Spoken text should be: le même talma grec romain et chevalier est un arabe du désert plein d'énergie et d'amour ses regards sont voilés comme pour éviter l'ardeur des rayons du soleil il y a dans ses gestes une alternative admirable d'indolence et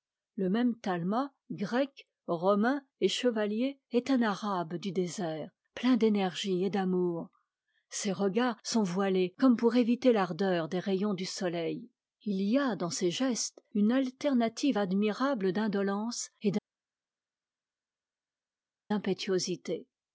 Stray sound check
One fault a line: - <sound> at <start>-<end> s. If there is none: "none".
none